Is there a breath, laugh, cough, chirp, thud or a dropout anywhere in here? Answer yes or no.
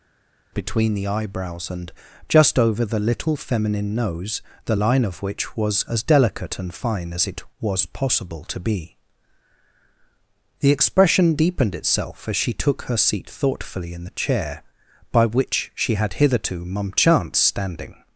no